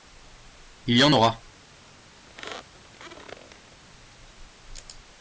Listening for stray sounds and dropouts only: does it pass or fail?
fail